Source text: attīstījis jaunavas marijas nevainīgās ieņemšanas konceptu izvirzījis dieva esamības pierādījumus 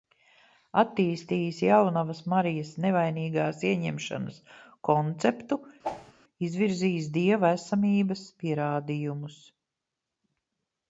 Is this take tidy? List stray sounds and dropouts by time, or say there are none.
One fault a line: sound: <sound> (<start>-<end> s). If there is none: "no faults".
sound: whoosh (5.8-6.1 s)